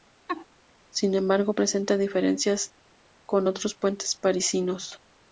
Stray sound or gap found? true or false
true